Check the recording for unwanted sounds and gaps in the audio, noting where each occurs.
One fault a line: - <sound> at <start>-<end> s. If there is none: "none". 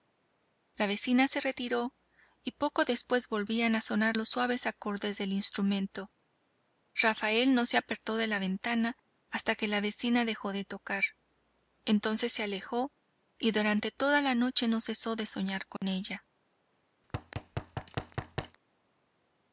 - dropout at 15.8-15.8 s
- thud at 17.0-18.6 s